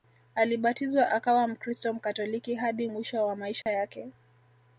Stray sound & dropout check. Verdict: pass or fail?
fail